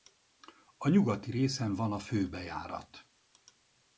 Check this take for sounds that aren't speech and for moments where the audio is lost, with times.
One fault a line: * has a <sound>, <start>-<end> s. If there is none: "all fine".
all fine